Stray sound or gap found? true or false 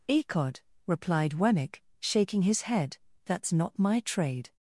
false